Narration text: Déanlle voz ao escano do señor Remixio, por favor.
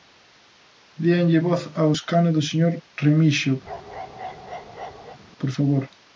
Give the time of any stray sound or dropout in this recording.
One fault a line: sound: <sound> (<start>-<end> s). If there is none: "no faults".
sound: bark (3.6-5.2 s)